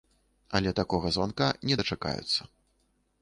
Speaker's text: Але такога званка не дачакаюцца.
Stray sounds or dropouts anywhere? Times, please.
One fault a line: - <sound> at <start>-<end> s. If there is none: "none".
none